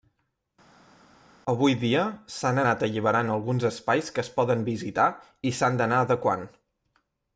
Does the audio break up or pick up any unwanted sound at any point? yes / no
no